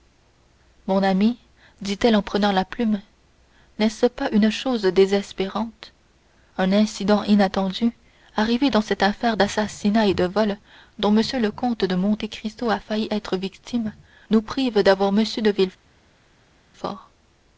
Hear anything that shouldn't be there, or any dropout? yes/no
no